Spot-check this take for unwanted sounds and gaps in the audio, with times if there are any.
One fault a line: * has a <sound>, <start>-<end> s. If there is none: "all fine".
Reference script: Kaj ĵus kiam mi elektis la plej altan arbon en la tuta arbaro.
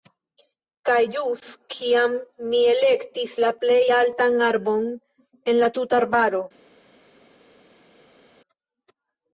all fine